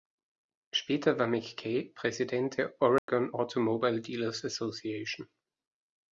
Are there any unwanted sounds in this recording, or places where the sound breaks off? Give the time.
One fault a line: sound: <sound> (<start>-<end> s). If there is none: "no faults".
sound: dropout (3.0-3.1 s)